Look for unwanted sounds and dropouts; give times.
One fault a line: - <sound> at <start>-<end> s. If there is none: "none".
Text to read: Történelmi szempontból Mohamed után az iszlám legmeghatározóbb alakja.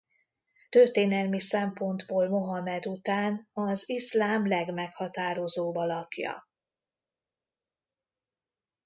none